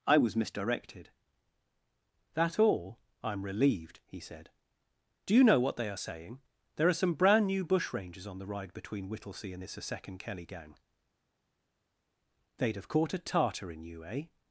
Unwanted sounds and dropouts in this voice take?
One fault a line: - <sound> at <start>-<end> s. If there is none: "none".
none